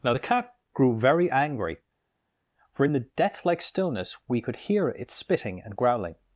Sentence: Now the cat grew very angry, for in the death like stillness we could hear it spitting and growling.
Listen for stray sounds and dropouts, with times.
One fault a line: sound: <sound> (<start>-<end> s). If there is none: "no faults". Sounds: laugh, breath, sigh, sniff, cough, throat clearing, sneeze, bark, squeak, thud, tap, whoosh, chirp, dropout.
no faults